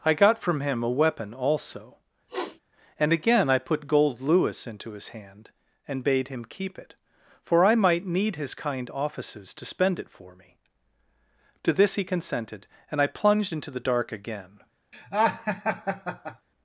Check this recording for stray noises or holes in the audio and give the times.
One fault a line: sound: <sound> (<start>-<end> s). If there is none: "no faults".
sound: sniff (2.3-2.6 s)
sound: laugh (14.9-16.5 s)